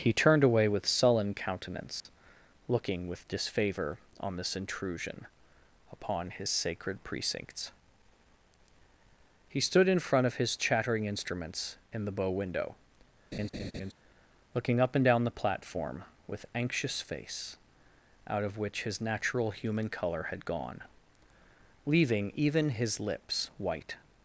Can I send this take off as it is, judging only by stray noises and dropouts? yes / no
no